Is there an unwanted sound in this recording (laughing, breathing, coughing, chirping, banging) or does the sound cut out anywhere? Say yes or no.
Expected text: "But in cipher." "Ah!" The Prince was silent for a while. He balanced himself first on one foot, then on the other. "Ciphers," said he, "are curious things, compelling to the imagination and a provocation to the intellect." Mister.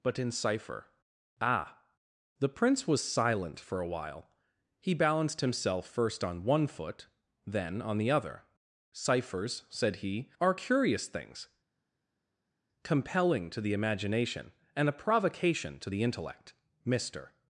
no